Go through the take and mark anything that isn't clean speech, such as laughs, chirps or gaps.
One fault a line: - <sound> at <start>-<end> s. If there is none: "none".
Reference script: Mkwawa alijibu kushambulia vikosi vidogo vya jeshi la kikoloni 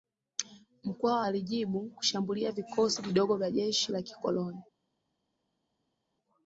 none